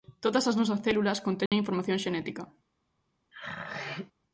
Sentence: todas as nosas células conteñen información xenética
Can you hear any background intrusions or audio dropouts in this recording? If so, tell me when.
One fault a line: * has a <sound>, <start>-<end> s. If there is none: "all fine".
* has a dropout, 1.5-1.5 s
* has a throat clearing, 3.3-4.1 s